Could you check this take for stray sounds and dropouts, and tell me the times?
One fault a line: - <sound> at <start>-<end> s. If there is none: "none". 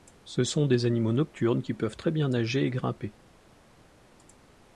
none